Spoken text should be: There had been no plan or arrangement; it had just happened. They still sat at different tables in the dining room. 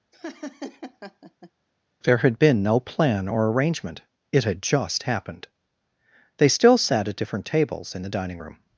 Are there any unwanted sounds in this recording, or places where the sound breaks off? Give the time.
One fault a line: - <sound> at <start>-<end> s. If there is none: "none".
- laugh at 0.1-1.5 s